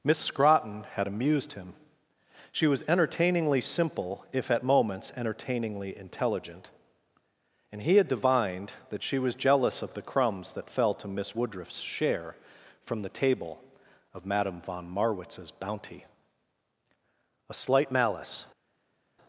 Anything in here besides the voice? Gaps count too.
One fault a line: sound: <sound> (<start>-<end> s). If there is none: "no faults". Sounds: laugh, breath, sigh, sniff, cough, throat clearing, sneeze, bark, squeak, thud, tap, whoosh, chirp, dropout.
no faults